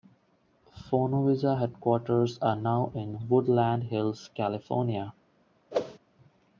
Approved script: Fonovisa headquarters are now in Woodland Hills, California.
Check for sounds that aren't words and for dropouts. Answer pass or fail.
fail